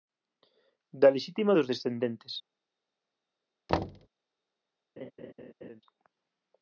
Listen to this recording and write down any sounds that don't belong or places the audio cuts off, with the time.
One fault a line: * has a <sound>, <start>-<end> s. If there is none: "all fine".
* has a thud, 3.7-4.1 s
* has a laugh, 5.0-5.8 s